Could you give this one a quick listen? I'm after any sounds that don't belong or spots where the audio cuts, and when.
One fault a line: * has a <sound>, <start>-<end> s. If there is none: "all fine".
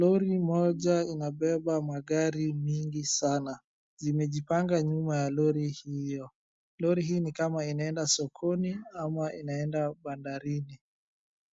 all fine